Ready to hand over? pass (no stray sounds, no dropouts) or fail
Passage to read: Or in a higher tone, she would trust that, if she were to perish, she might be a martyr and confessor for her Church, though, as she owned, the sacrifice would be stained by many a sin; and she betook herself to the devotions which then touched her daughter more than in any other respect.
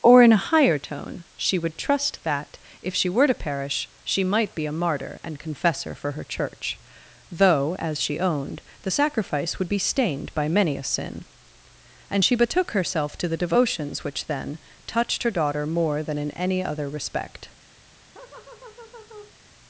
fail